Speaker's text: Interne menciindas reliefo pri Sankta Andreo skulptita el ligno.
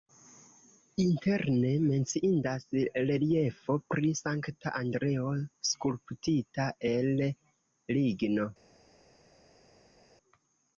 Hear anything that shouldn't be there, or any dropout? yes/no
no